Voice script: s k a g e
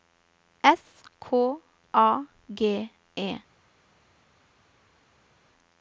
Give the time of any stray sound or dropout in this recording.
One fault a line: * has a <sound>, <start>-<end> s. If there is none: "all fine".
all fine